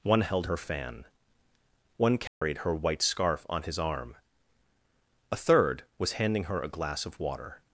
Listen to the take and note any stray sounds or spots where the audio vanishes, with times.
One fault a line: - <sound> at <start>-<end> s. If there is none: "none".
- dropout at 2.3-2.4 s